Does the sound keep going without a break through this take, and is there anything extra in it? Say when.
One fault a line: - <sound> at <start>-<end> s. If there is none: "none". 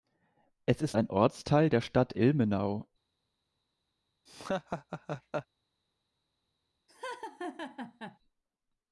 - laugh at 4.3-5.5 s
- laugh at 6.9-8.2 s